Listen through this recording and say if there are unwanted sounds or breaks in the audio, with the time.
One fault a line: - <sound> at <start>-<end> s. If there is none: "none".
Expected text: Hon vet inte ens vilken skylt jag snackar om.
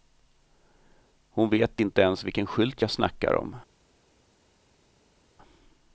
none